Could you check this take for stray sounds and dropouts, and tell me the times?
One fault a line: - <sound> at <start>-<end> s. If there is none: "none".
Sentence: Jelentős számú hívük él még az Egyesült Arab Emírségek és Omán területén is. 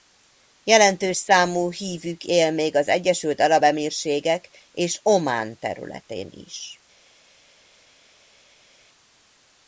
none